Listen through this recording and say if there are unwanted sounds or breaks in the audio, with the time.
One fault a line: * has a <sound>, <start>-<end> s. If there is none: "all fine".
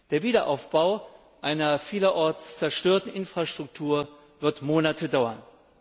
all fine